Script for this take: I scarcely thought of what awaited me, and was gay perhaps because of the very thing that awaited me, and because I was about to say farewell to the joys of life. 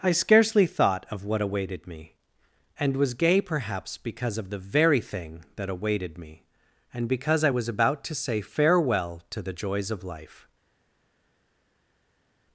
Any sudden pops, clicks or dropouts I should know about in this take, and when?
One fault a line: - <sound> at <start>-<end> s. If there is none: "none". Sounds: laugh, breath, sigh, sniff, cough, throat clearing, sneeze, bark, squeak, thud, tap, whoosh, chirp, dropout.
none